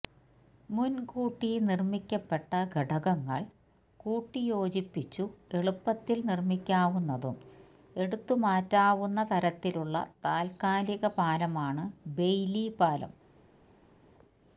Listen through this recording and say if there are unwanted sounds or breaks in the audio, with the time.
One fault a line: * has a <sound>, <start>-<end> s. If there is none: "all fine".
all fine